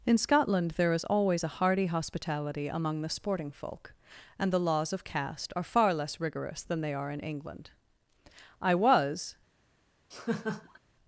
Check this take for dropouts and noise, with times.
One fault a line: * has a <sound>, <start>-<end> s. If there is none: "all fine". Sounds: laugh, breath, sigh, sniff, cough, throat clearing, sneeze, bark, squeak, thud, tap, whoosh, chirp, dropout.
* has a laugh, 10.1-10.8 s